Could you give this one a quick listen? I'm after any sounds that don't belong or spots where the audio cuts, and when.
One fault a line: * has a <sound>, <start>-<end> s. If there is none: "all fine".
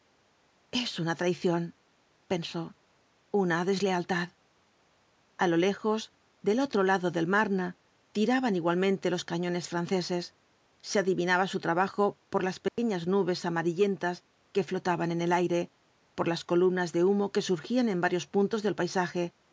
* has a dropout, 12.7-12.8 s